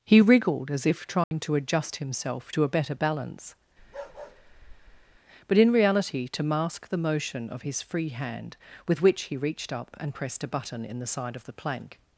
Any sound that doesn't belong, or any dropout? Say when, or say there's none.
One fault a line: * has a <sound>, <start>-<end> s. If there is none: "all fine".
* has a dropout, 1.2-1.3 s
* has a bark, 3.8-5.2 s